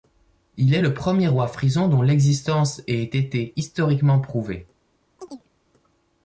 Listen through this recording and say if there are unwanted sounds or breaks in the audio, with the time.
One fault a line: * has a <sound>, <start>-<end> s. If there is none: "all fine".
* has a chirp, 5.2-5.5 s